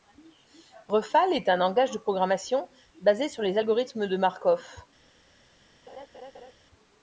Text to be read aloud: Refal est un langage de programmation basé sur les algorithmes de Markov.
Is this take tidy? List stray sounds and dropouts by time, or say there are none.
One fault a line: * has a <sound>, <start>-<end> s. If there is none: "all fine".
* has a laugh, 5.9-6.5 s